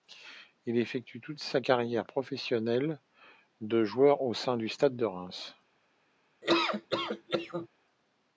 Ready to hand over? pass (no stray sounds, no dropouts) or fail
fail